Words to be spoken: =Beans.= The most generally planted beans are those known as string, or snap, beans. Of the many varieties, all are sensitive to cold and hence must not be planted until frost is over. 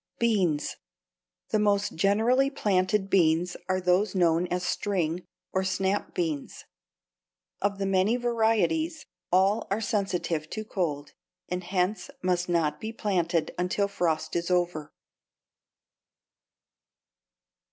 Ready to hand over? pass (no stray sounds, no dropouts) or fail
pass